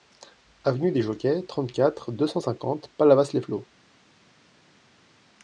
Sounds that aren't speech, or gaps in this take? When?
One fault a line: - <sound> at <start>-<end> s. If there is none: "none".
none